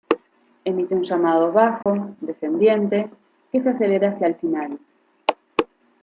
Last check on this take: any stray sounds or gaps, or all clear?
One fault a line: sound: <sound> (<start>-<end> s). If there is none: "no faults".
sound: dropout (1.8-1.9 s)